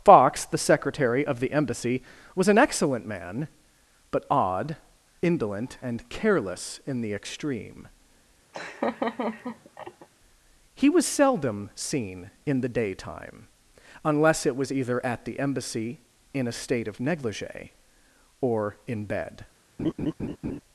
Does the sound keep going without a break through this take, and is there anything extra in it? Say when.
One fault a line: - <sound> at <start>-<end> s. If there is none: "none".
- laugh at 8.5-10.1 s
- laugh at 19.8-20.6 s